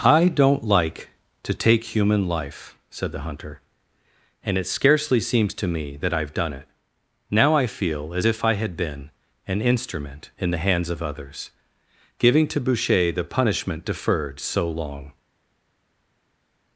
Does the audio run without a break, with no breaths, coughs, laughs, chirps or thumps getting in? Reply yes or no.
yes